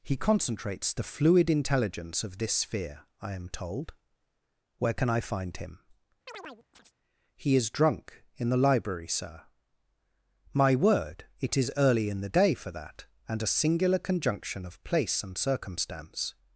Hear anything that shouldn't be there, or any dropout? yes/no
yes